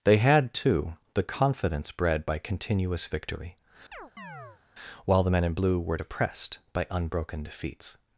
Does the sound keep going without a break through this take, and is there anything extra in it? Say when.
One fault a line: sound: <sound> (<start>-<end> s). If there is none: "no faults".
sound: chirp (3.9-4.6 s)